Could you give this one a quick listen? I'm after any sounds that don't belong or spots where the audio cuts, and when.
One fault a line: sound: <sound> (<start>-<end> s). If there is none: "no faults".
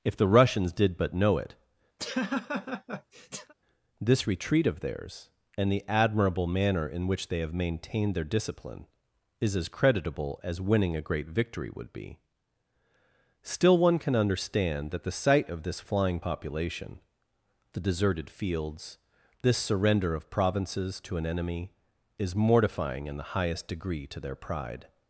sound: laugh (2.0-3.5 s)